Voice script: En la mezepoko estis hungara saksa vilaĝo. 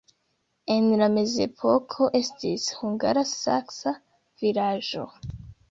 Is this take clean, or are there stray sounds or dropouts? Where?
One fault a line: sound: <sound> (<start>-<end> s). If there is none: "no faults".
no faults